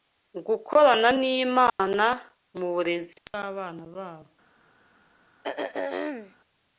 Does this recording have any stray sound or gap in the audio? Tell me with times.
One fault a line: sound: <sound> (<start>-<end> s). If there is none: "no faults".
sound: dropout (1.7-1.8 s)
sound: throat clearing (5.4-6.4 s)